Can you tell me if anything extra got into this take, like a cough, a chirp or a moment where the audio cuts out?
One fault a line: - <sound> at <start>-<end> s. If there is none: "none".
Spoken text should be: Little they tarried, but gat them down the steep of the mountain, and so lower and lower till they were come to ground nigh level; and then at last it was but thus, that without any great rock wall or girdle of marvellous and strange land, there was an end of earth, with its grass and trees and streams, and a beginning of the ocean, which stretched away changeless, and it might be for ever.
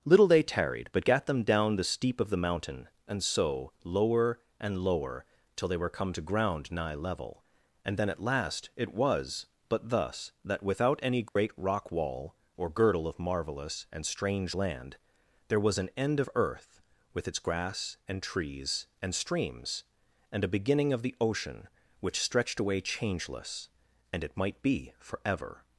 - dropout at 11.3-11.4 s